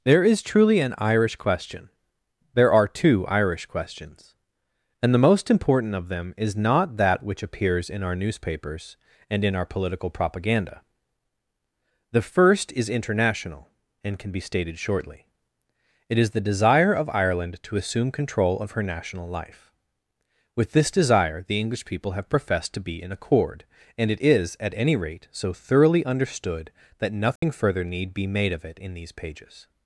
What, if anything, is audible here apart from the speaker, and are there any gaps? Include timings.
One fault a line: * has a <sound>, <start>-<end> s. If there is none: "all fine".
* has a dropout, 27.4-27.4 s